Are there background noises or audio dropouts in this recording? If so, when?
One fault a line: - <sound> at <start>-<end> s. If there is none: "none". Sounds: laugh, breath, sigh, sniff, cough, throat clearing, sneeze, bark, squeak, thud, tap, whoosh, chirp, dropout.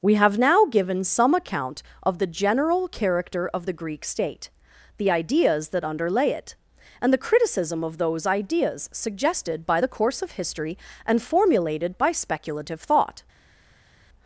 none